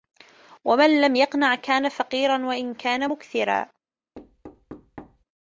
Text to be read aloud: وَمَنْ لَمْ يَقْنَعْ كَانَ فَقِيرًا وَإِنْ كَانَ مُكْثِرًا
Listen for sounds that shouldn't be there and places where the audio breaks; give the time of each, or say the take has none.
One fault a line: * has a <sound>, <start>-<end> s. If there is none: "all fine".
* has a thud, 4.1-5.2 s